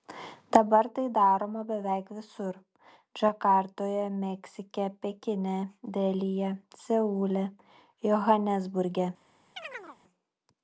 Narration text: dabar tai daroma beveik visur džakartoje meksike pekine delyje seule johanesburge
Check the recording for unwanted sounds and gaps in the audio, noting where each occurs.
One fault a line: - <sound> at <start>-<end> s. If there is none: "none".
- chirp at 9.6-10.0 s